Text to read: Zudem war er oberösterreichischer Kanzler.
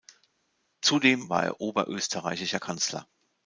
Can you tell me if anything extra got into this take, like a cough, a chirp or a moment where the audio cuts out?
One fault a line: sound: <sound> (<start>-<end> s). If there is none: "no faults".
no faults